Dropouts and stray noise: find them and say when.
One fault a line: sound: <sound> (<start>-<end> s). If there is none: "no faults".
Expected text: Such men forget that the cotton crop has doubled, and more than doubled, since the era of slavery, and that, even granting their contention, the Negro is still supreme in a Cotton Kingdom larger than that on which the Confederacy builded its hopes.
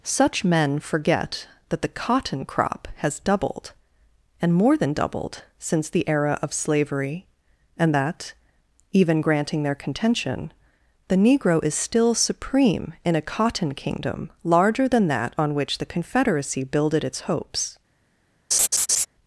sound: laugh (18.5-19.1 s)